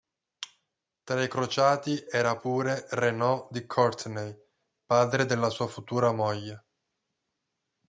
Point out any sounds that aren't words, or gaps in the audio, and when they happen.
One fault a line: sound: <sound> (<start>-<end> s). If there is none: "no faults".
no faults